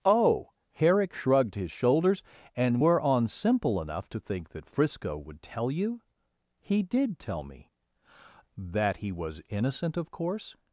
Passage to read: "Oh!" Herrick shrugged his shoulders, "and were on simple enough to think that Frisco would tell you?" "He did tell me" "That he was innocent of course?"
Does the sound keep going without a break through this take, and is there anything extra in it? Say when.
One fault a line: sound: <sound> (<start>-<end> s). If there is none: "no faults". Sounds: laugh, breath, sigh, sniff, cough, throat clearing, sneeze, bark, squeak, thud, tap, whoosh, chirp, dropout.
no faults